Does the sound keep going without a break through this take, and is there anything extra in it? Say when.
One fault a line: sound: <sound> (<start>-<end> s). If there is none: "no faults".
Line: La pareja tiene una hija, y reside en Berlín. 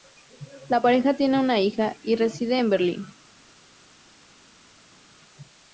no faults